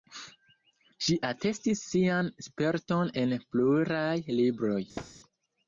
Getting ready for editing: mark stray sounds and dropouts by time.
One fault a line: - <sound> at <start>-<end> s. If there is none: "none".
- thud at 5.0-5.1 s